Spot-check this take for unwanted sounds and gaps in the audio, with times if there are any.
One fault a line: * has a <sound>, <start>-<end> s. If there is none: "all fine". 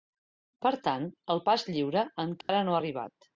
* has a dropout, 2.4-2.5 s